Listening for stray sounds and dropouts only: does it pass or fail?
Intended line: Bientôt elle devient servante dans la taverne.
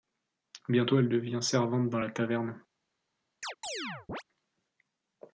fail